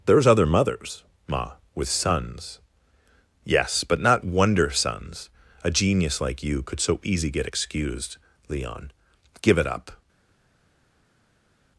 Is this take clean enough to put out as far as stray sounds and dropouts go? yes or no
yes